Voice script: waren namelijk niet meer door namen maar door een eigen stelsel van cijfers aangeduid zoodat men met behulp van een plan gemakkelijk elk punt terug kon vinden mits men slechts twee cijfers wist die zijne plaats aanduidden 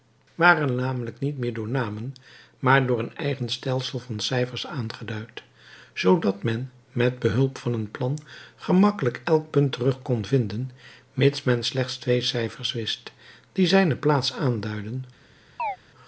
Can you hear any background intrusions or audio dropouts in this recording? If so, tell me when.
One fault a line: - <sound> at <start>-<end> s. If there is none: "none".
- chirp at 15.6-15.8 s